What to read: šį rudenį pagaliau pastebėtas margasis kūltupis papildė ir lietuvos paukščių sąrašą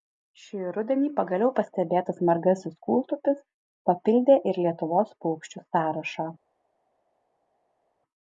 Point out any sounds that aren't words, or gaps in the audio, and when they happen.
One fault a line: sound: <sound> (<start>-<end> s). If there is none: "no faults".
no faults